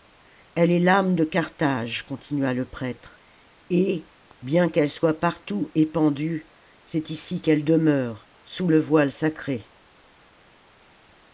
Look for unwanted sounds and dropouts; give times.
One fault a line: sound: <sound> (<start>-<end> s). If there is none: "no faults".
no faults